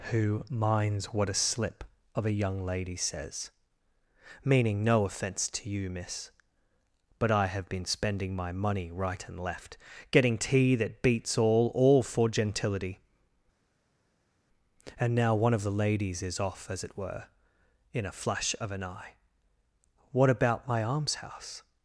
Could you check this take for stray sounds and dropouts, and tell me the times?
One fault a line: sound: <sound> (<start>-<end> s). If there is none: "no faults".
no faults